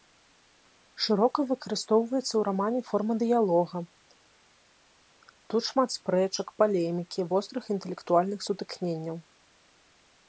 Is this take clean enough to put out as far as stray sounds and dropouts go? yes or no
yes